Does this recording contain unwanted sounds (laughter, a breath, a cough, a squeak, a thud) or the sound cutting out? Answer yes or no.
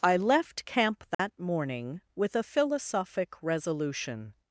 yes